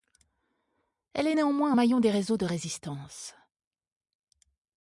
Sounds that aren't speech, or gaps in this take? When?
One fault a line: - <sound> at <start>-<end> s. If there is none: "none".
none